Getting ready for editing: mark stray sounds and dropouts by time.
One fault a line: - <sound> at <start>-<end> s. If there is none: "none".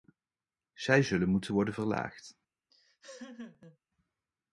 - laugh at 2.7-3.8 s